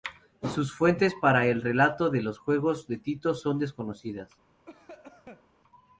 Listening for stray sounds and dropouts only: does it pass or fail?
fail